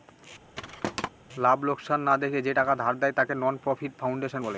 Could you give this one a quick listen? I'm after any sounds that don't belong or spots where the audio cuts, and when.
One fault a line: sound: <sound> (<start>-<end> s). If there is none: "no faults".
sound: thud (0.6-1.1 s)